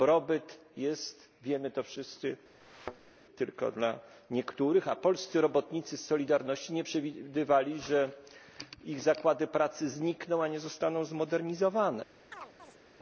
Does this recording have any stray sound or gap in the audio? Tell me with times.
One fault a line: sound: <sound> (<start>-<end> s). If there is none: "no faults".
sound: thud (2.6-3.1 s)
sound: chirp (12.3-12.8 s)